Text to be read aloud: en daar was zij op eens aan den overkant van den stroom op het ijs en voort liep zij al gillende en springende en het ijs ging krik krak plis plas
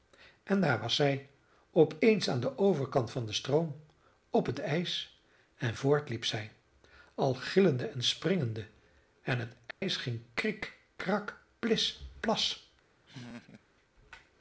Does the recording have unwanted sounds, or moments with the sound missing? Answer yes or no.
yes